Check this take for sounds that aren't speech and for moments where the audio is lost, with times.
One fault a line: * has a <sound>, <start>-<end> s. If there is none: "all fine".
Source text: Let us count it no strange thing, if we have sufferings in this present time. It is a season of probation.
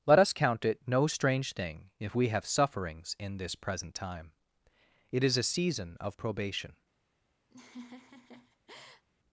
* has a laugh, 7.5-9.0 s